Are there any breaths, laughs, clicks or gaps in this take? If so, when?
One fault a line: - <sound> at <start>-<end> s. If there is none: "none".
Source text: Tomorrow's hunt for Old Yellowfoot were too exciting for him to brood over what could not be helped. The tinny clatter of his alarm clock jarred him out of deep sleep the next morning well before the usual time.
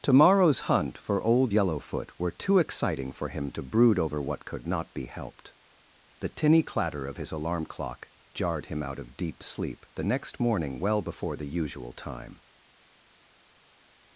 none